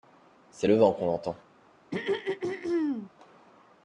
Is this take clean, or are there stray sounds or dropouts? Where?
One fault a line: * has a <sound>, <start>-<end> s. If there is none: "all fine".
* has a throat clearing, 1.9-3.1 s